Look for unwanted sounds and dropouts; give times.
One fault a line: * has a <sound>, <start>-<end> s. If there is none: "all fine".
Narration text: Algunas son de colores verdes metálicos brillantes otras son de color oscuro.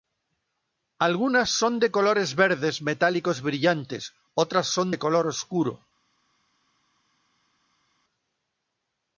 all fine